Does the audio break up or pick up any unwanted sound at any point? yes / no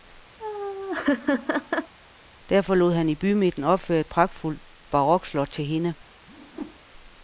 yes